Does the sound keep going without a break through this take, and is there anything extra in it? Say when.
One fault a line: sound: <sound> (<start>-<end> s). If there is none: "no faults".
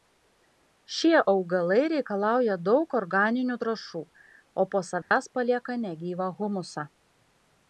sound: dropout (5.0-5.1 s)